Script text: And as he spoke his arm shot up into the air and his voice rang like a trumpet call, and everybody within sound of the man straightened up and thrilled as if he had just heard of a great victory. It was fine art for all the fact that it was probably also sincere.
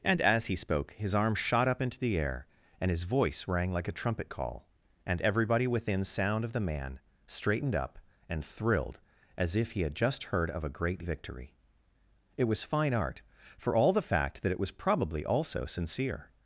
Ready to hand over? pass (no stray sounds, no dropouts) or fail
pass